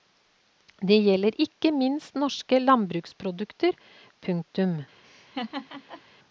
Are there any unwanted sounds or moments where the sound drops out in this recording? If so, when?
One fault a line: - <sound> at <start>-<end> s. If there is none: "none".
- laugh at 5.0-6.0 s